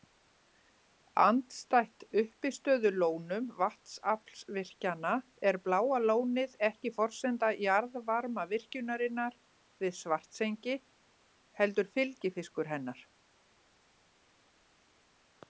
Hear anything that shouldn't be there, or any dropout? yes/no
no